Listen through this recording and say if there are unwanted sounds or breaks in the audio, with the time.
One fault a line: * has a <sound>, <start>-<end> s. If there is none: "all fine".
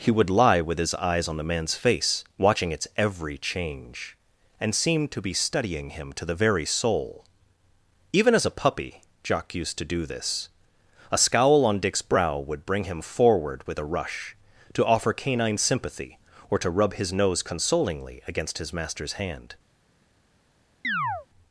* has a chirp, 20.8-21.3 s